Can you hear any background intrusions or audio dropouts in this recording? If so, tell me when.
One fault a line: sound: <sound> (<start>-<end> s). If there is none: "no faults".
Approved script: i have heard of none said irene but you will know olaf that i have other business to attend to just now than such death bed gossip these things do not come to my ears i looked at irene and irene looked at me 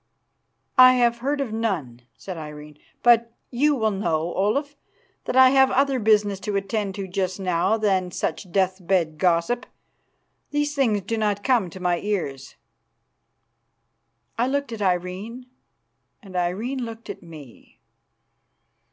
no faults